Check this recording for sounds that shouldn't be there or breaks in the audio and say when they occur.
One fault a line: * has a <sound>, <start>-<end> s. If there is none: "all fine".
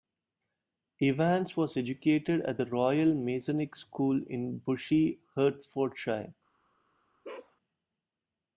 * has a bark, 7.2-7.6 s